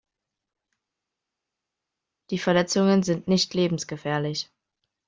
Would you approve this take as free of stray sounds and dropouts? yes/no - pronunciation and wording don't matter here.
yes